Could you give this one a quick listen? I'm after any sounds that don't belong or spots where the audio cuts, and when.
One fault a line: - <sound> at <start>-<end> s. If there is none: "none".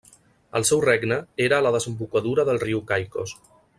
none